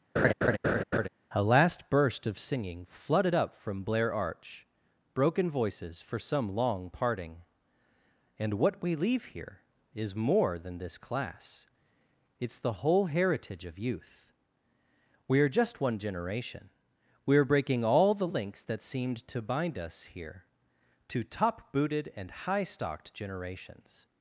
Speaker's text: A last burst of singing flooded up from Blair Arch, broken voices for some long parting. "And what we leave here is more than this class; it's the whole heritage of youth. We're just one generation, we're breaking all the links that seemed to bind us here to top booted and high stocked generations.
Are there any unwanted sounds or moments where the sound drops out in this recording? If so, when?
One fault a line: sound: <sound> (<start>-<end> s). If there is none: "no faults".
sound: laugh (0.2-1.1 s)